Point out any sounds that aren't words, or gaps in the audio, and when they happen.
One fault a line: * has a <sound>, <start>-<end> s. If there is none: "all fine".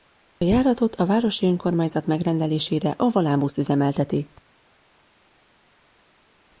all fine